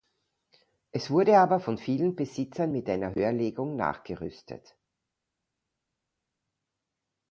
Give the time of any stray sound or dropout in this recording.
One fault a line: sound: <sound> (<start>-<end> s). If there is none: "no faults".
no faults